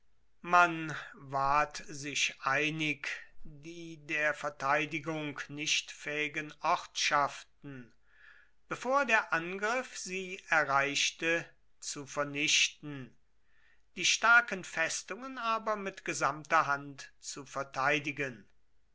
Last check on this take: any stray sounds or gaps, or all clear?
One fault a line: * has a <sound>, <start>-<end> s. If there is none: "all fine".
all fine